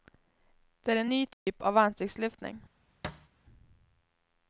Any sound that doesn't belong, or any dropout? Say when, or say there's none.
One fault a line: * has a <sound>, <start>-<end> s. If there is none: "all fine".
* has a dropout, 1.3-1.5 s
* has a thud, 3.0-3.3 s